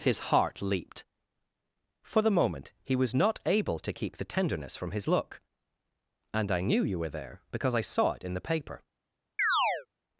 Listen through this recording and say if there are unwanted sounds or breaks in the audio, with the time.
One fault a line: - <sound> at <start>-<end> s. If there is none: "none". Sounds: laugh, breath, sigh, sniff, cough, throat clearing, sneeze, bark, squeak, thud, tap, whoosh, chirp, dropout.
- chirp at 9.4-9.9 s